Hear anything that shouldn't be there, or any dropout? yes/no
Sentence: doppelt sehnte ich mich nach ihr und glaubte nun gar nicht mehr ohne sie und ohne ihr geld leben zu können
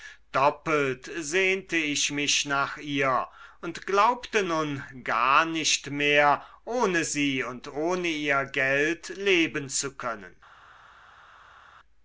no